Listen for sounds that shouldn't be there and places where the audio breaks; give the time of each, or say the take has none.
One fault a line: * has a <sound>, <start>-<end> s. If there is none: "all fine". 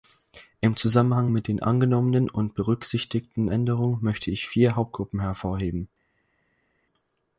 all fine